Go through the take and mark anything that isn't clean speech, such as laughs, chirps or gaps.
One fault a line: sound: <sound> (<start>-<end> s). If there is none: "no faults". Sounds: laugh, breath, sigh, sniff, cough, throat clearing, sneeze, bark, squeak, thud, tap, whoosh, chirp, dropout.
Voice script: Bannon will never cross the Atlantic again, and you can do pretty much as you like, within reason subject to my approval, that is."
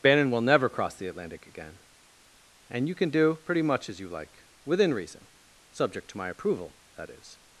no faults